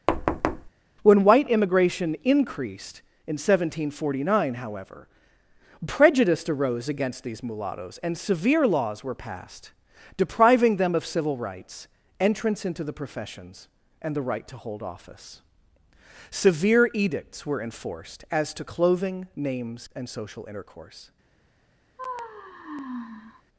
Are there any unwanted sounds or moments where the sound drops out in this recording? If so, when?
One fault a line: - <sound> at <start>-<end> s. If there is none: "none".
- thud at 0.1-0.7 s
- sigh at 22.0-23.4 s